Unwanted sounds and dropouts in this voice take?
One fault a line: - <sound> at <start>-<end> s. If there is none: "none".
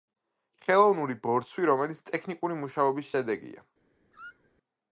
- squeak at 4.1-4.5 s